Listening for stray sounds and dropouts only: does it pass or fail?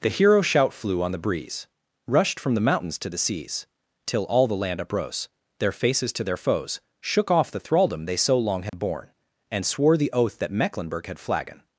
fail